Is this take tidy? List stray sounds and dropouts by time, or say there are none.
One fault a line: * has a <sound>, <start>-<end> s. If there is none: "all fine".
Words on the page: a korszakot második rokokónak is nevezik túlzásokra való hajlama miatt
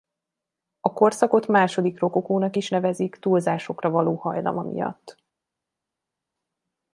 all fine